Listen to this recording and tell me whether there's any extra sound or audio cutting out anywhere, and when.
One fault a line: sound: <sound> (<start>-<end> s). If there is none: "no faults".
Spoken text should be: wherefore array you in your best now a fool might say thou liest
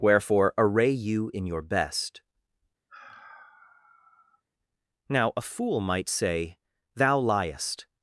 sound: sigh (2.9-4.4 s)